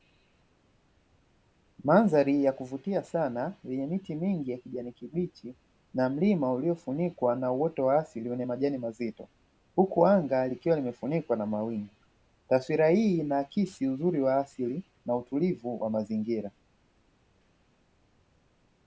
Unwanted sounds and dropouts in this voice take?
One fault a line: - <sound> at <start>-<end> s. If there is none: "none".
none